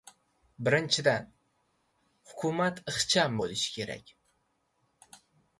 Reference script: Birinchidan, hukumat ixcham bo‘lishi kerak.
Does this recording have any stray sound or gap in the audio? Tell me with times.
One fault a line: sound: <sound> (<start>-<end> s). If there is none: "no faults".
no faults